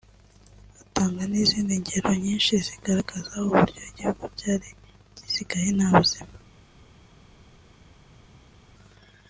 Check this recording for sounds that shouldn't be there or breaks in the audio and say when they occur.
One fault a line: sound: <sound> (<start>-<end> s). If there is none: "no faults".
no faults